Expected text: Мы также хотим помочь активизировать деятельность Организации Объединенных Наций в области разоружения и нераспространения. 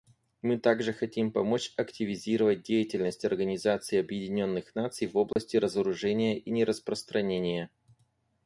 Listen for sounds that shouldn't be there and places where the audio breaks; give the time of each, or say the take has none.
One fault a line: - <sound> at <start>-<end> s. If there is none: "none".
- dropout at 5.3-5.4 s